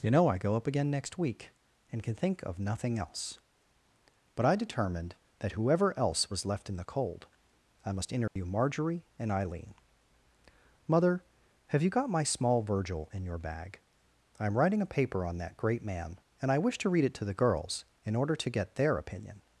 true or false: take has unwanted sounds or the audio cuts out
true